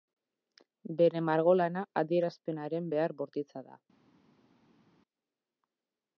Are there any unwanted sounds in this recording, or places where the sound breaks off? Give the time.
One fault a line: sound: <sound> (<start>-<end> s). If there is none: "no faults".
no faults